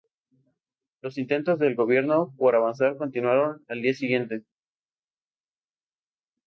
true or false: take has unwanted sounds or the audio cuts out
false